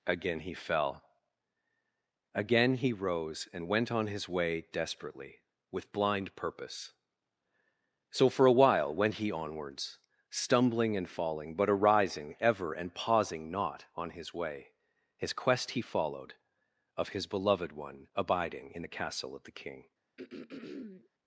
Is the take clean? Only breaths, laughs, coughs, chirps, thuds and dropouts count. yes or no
no